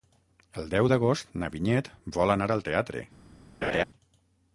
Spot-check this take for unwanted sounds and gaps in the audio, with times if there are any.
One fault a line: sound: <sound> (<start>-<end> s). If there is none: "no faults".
sound: laugh (3.6-3.8 s)